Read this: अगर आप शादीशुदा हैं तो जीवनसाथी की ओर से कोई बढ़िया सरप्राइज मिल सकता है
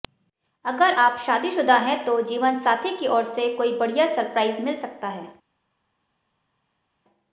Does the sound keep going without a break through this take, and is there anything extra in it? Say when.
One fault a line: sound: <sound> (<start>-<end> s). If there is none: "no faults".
no faults